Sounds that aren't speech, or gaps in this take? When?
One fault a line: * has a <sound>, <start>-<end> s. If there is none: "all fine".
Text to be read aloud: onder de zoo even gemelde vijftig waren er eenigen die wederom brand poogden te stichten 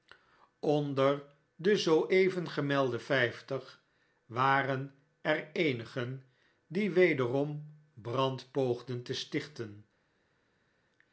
all fine